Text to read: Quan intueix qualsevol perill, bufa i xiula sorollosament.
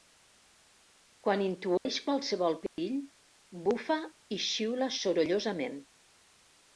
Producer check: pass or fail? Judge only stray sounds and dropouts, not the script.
fail